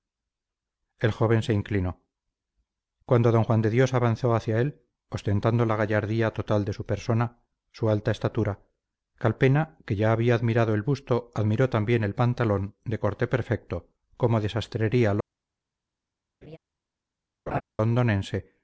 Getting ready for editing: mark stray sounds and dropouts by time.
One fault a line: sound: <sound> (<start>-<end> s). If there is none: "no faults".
sound: laugh (16.4-16.6 s)
sound: laugh (17.5-17.6 s)